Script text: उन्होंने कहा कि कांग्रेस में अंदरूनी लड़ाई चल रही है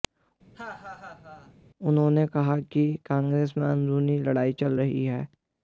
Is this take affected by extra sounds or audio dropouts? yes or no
yes